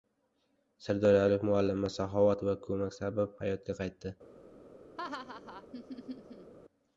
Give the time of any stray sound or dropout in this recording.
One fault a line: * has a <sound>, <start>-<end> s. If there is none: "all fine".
* has a laugh, 5.0-6.5 s